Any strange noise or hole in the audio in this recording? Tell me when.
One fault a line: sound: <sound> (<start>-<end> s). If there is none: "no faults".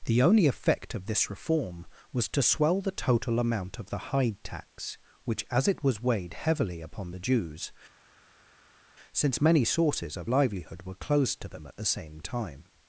no faults